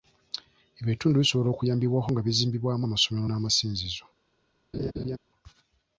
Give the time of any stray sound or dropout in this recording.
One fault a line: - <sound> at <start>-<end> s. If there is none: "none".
- laugh at 4.7-5.2 s